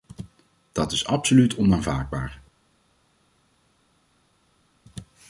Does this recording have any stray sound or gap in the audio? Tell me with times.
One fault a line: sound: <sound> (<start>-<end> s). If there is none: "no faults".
no faults